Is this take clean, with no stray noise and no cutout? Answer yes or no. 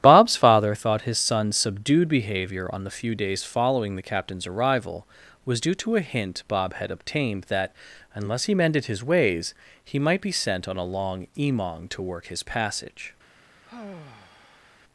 no